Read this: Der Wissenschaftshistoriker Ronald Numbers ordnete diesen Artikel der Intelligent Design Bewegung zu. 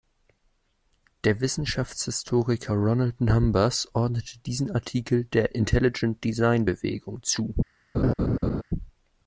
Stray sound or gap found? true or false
true